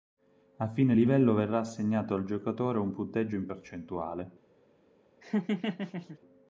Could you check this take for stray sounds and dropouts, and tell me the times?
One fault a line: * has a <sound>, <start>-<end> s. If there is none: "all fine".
* has a laugh, 5.2-6.2 s